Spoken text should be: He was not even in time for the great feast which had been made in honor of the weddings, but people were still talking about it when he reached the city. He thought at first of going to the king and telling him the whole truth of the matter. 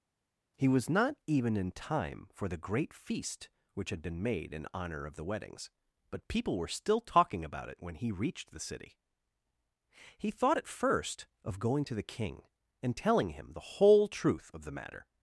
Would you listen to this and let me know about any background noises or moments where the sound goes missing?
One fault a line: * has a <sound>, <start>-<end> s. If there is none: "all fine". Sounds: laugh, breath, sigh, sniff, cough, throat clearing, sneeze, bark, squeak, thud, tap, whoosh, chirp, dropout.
all fine